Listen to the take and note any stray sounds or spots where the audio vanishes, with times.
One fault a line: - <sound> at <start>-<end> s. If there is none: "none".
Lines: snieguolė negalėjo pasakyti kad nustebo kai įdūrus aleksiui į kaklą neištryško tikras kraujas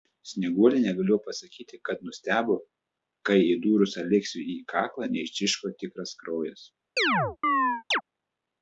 - chirp at 7.0-8.0 s